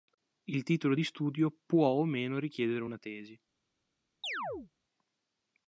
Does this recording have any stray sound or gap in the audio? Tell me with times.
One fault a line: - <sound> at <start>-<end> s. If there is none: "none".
- chirp at 4.2-4.7 s